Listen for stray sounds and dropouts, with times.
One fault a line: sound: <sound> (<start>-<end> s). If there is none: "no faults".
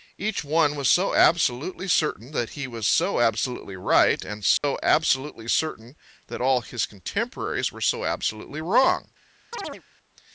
sound: dropout (4.6-4.6 s)
sound: chirp (9.5-9.8 s)